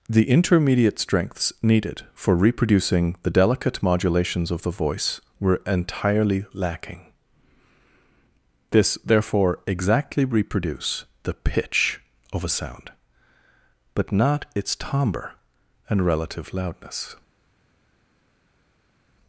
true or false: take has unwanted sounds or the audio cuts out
false